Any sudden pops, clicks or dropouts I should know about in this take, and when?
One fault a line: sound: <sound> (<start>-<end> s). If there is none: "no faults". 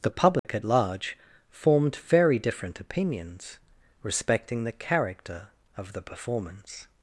sound: dropout (0.4-0.4 s)